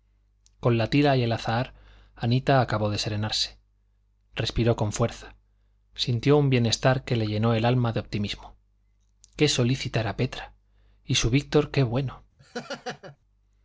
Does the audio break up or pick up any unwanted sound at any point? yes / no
yes